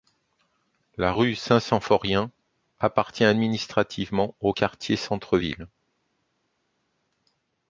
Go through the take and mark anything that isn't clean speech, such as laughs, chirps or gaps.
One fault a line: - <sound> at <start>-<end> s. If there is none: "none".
none